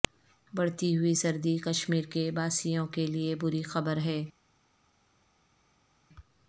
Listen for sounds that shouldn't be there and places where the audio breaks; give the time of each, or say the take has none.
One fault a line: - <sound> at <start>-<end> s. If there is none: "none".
none